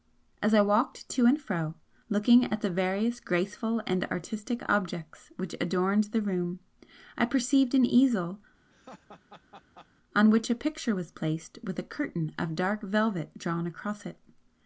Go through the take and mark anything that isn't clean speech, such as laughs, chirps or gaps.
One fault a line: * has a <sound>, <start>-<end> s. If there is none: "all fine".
* has a laugh, 8.7-9.9 s